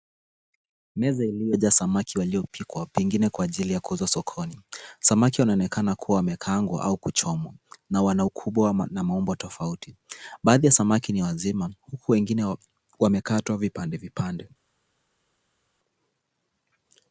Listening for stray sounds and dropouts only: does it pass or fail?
pass